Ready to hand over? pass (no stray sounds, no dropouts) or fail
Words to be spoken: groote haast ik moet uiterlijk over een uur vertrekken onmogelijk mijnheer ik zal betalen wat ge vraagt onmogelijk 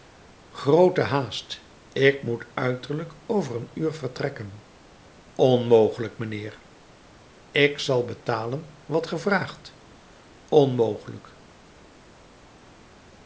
pass